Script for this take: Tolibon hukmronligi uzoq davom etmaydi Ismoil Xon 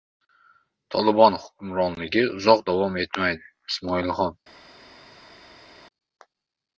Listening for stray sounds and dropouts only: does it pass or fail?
pass